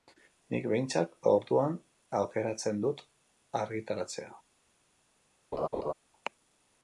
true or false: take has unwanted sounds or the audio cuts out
true